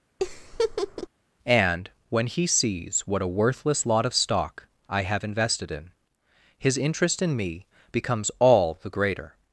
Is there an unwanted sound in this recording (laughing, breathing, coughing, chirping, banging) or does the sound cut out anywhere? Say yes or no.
yes